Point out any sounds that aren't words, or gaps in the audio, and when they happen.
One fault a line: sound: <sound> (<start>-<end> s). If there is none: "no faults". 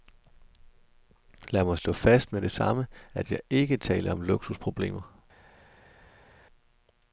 no faults